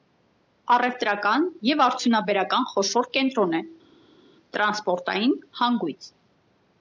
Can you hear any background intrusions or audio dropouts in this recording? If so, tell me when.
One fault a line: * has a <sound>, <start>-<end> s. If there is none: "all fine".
all fine